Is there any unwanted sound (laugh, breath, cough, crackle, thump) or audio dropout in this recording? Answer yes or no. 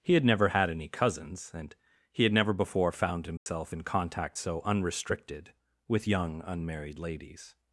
yes